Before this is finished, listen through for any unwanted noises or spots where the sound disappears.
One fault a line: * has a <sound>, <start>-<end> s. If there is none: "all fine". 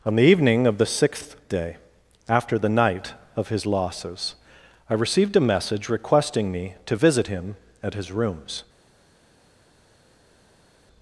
all fine